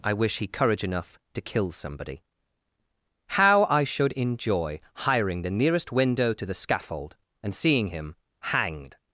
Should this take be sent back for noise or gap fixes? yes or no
no